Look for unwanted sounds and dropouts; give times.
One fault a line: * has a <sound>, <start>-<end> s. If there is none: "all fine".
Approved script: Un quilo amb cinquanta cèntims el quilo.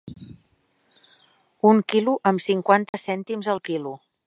* has a dropout, 2.9-2.9 s